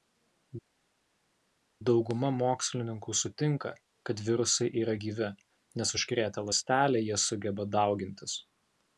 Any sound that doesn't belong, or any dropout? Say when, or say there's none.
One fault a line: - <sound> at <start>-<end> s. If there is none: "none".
none